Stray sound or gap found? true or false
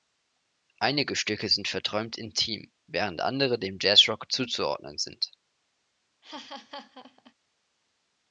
true